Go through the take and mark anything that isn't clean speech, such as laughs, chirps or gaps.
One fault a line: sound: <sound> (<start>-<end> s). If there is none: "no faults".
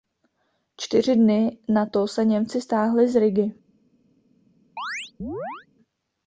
sound: chirp (4.8-5.7 s)